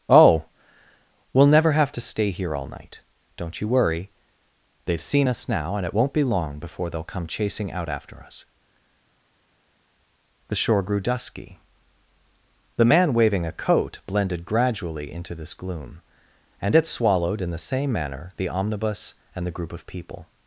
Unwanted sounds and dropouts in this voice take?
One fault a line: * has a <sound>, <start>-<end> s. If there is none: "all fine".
all fine